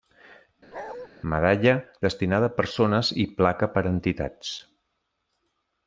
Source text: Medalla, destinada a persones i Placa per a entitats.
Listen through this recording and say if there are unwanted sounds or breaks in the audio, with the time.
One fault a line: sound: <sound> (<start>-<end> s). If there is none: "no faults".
sound: bark (0.7-1.1 s)